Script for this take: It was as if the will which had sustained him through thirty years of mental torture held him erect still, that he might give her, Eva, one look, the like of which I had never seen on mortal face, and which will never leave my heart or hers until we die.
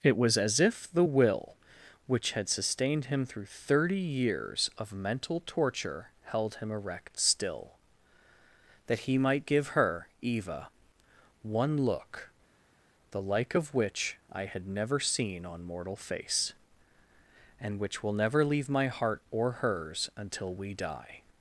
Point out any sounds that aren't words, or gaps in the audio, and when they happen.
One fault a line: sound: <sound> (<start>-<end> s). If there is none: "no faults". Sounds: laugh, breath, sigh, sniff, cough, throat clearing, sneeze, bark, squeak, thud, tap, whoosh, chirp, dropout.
no faults